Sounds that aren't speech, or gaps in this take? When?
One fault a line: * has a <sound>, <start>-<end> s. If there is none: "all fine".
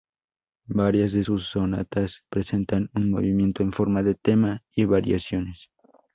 all fine